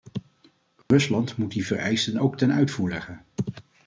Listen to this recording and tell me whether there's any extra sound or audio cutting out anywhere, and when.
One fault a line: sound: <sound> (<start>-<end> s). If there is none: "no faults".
sound: dropout (0.8-0.9 s)